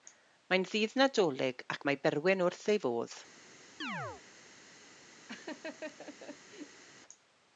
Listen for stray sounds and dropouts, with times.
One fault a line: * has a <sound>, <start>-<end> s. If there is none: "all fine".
* has a chirp, 3.8-4.2 s
* has a laugh, 5.3-6.8 s